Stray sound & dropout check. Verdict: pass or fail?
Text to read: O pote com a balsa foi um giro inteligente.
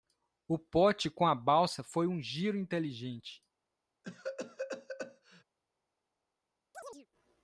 fail